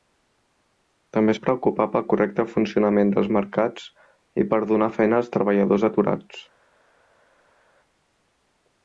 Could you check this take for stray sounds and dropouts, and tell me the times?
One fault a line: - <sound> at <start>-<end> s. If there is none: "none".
none